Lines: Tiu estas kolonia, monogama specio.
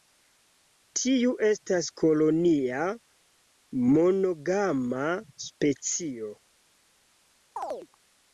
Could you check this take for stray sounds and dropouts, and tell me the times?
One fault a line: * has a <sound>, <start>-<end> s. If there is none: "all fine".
* has a chirp, 7.6-7.9 s